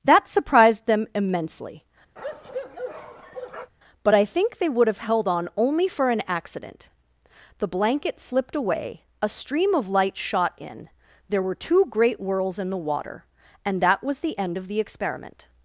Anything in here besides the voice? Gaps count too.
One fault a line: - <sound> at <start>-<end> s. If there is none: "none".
- bark at 2.2-3.7 s